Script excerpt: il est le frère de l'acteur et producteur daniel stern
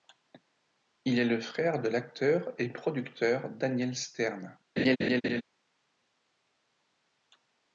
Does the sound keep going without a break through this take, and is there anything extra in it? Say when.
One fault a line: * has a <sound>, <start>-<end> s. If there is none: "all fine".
* has a laugh, 4.8-5.4 s